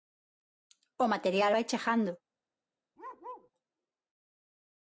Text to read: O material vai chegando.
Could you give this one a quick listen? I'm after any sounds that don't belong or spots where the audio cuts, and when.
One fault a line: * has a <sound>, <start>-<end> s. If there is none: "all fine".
* has a bark, 3.0-3.5 s